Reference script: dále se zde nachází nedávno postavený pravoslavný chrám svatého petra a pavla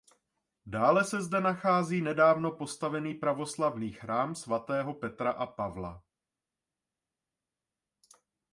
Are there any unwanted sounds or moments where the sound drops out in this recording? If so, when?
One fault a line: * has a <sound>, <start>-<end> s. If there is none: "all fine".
all fine